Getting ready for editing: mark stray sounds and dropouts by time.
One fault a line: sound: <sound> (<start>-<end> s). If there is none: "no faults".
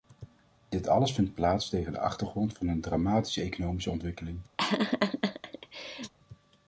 sound: laugh (4.6-6.1 s)